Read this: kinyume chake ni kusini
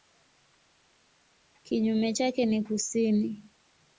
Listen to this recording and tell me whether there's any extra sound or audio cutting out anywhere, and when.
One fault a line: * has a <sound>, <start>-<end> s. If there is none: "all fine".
all fine